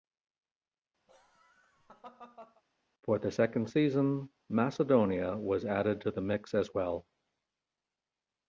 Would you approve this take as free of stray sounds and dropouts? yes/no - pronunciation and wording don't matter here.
no